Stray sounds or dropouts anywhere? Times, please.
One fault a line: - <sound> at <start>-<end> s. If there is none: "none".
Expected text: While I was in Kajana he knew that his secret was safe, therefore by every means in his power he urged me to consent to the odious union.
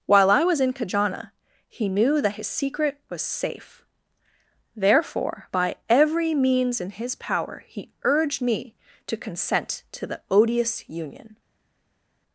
none